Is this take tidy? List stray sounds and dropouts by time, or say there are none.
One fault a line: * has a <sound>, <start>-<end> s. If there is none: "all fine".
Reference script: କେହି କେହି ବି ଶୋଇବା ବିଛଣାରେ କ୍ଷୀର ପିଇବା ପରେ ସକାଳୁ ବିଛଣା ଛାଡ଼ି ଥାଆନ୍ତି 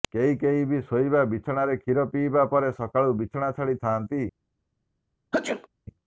* has a sneeze, 5.3-5.7 s